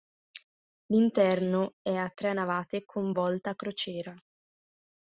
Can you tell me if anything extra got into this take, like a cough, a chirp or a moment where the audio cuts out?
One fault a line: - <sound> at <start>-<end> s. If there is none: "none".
none